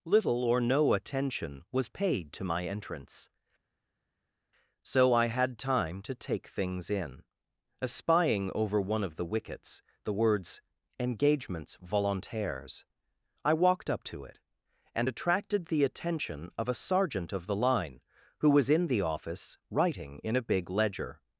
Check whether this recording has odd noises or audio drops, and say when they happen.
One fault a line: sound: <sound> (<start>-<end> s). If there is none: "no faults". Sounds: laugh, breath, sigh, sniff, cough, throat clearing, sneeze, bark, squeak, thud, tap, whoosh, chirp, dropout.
no faults